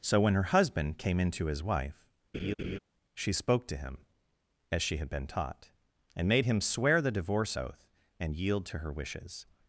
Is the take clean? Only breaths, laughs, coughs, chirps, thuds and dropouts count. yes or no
no